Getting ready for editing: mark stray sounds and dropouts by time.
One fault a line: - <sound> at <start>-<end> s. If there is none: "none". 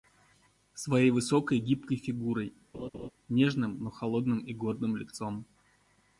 - laugh at 2.7-3.1 s